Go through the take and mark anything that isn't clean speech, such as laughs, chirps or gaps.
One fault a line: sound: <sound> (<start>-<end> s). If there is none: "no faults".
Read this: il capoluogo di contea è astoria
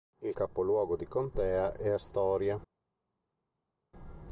no faults